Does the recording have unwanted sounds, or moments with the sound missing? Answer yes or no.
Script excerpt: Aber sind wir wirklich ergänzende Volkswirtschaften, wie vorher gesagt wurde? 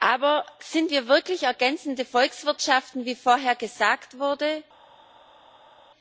no